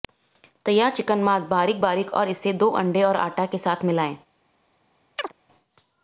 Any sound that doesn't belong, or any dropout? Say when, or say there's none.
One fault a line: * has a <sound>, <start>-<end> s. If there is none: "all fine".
* has a chirp, 5.2-5.3 s